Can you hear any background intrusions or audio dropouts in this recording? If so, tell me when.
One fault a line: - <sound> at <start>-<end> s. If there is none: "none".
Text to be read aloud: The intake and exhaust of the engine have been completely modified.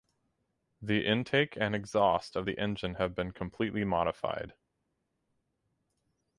none